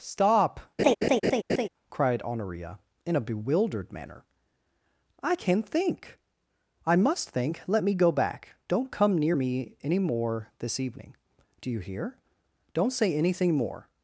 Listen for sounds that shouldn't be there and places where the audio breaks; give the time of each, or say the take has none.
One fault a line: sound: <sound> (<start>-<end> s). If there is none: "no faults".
sound: laugh (0.8-1.7 s)